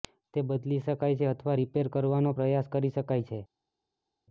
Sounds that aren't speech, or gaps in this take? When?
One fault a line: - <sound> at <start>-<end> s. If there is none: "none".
none